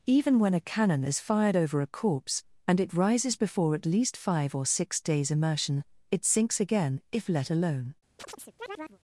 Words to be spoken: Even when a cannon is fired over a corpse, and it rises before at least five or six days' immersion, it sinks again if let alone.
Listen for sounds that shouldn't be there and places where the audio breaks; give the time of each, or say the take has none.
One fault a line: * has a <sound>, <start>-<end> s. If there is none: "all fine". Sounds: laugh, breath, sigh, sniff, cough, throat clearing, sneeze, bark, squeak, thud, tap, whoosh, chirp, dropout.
* has a chirp, 8.2-9.0 s